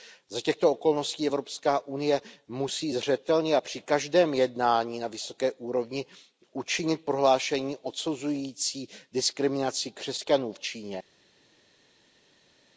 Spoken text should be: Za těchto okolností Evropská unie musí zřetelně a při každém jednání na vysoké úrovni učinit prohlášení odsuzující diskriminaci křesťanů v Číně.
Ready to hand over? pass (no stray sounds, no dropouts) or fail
pass